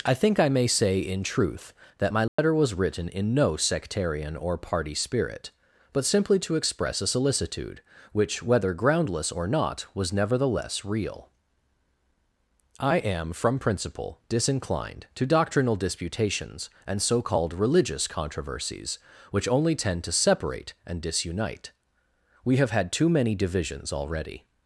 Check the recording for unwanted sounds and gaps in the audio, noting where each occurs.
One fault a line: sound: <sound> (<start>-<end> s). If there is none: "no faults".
sound: dropout (2.3-2.4 s)